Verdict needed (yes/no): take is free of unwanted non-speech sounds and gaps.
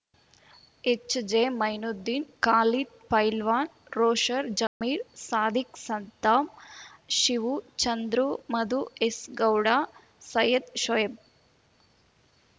no